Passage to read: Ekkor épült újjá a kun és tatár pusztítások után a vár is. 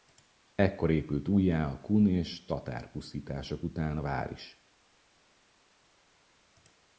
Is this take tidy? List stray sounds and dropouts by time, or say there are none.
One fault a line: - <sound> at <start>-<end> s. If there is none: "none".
none